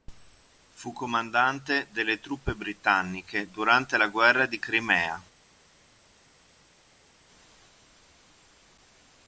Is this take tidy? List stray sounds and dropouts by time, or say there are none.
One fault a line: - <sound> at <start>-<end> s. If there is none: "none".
none